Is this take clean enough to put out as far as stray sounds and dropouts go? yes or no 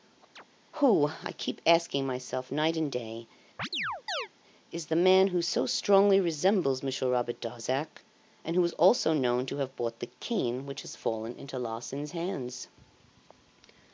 no